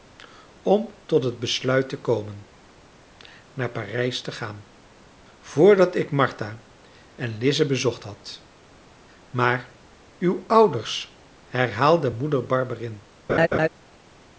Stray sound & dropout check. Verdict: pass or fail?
fail